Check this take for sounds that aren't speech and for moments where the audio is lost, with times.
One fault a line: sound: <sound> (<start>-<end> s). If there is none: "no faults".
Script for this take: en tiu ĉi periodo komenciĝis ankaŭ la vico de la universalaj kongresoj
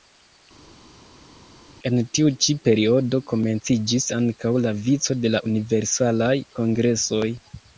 no faults